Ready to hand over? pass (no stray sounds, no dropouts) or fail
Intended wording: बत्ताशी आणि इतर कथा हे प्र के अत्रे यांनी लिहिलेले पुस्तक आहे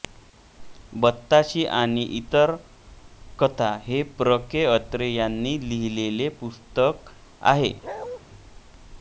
fail